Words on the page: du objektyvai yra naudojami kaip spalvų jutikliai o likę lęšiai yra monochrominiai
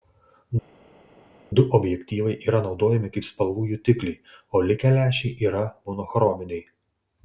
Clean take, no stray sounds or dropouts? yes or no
yes